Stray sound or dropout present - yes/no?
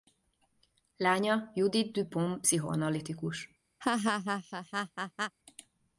yes